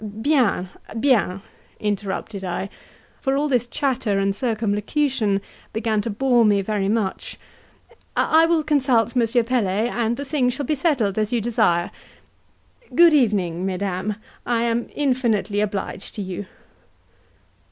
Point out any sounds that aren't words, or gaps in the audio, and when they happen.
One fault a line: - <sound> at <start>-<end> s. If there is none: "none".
none